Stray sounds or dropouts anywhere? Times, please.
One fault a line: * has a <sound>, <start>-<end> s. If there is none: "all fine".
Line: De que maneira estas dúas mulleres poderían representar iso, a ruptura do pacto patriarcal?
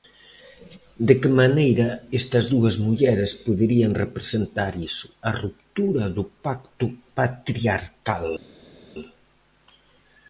all fine